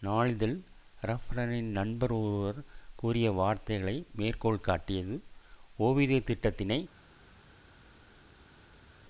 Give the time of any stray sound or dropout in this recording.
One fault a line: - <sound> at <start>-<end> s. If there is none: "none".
none